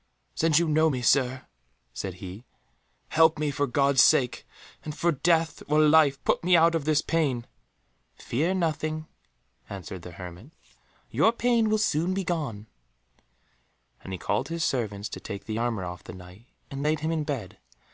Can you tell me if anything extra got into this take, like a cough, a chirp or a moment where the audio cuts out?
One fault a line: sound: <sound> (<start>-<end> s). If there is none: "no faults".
no faults